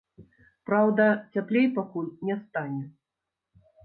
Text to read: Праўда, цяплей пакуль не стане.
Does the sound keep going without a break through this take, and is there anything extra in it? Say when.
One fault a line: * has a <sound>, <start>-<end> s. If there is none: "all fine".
all fine